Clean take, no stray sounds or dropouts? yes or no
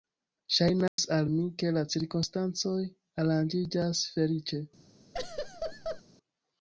no